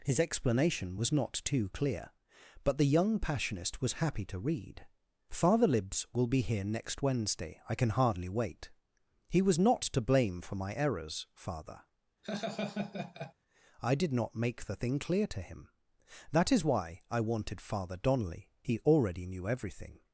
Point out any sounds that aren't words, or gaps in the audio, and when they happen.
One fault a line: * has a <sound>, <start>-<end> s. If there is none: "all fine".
* has a laugh, 12.2-13.3 s